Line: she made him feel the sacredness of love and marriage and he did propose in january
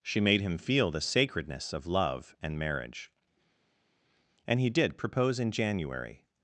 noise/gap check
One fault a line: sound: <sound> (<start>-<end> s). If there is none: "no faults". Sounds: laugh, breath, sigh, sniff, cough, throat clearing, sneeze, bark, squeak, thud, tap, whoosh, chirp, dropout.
no faults